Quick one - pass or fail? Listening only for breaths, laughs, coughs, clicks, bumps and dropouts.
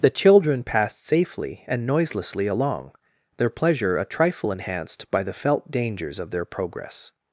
pass